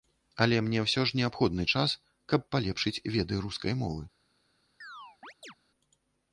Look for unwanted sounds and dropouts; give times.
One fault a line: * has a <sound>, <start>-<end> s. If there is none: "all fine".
* has a chirp, 4.8-5.5 s